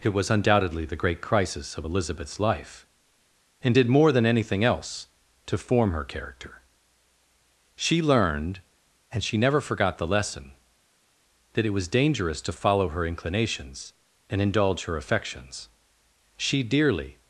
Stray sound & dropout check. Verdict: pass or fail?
pass